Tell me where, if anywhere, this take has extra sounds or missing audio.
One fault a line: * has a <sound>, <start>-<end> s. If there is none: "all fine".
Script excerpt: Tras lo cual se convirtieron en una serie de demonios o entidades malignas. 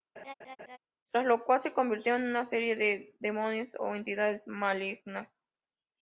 * has a laugh, 0.2-0.8 s